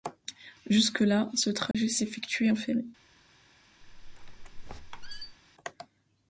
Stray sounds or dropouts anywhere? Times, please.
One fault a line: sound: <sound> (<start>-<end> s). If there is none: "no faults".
sound: dropout (1.7-1.7 s)
sound: squeak (3.8-5.4 s)